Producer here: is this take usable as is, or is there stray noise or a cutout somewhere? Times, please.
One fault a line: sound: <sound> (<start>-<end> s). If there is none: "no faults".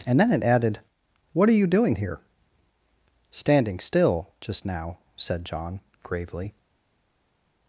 no faults